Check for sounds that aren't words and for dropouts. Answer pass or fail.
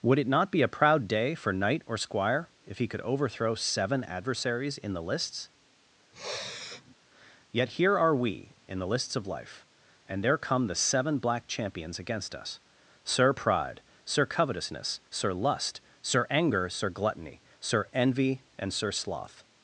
fail